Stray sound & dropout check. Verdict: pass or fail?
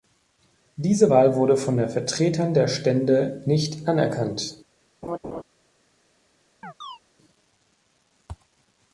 fail